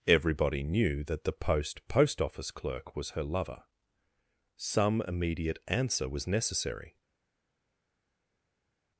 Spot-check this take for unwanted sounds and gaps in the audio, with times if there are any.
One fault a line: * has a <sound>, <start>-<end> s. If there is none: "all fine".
all fine